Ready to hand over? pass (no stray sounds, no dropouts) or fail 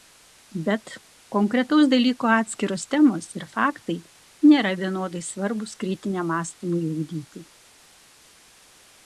pass